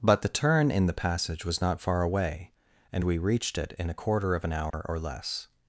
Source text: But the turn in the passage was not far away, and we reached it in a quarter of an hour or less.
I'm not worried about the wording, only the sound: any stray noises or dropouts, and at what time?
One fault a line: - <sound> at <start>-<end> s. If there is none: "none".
- dropout at 4.7-4.7 s